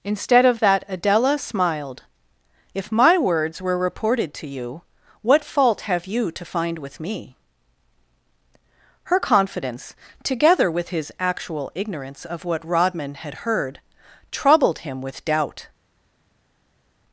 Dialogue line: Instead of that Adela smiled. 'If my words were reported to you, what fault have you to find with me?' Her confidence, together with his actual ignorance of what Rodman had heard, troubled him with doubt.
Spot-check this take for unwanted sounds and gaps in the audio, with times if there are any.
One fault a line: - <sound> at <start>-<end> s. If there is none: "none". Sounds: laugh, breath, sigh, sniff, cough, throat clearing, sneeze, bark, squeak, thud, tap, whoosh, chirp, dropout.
none